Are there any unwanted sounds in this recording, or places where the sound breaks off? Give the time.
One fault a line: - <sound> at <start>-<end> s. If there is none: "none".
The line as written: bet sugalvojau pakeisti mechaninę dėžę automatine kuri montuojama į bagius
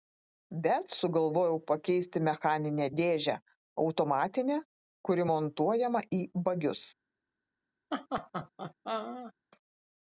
- laugh at 7.9-9.3 s